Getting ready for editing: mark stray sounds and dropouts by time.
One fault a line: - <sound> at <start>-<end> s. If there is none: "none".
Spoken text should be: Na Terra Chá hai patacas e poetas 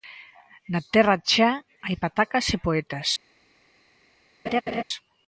- laugh at 4.5-4.8 s